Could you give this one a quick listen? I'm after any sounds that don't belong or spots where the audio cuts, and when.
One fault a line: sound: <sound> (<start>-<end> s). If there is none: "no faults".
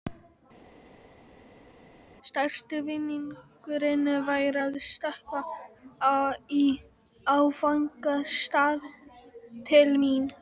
no faults